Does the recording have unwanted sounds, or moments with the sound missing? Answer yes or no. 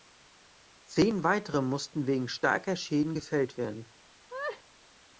yes